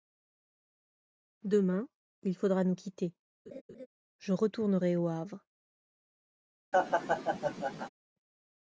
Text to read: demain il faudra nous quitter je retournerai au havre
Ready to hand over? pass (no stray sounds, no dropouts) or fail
fail